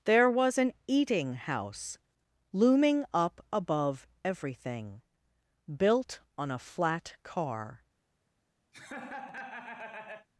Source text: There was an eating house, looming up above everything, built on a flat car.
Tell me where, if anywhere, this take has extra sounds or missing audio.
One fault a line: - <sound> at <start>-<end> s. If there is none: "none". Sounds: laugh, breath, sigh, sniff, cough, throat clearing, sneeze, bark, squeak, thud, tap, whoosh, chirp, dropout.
- laugh at 8.7-10.3 s